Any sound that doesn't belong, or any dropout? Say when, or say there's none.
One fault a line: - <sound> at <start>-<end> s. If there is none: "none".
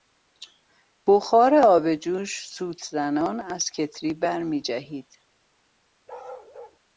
- bark at 6.1-6.8 s